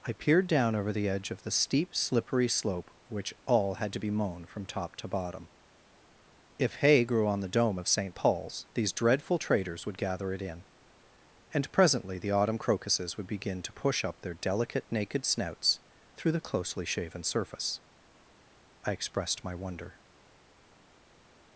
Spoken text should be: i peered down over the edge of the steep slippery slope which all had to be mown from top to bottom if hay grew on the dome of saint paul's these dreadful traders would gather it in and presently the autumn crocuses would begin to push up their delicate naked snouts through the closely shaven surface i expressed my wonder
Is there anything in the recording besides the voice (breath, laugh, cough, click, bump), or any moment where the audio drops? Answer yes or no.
no